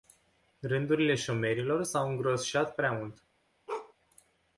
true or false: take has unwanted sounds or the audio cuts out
true